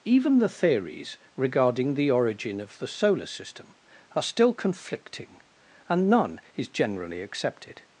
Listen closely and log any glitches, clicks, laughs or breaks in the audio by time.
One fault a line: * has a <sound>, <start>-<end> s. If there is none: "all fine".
all fine